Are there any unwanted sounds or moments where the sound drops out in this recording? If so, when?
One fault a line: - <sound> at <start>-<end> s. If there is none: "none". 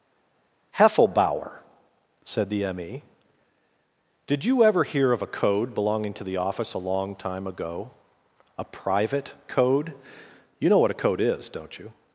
none